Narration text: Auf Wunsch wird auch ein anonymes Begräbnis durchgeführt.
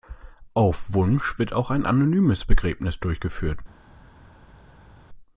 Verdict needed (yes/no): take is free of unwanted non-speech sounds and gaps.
yes